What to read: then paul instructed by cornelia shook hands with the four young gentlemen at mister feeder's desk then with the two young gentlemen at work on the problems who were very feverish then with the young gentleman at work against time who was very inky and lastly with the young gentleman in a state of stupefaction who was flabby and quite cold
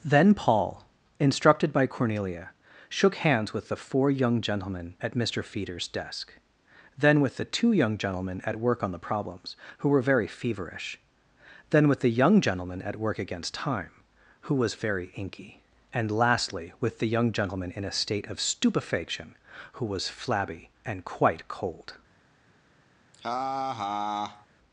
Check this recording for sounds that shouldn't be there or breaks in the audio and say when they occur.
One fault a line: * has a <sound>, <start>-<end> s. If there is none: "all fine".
* has a laugh, 23.1-24.5 s